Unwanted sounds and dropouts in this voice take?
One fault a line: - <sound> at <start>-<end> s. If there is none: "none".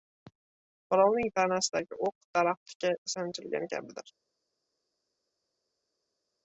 none